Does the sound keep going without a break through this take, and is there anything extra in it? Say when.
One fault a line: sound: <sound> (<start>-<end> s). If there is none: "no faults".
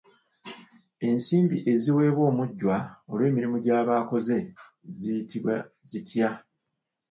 no faults